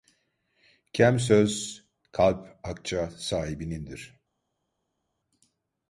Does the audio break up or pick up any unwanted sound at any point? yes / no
no